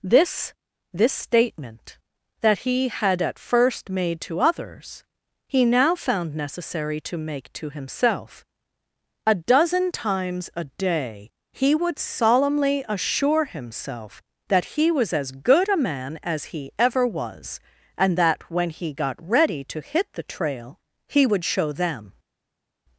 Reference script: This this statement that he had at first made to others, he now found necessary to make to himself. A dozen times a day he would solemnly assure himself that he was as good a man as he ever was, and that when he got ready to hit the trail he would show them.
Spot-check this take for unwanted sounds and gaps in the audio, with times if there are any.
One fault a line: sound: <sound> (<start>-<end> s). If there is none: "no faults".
no faults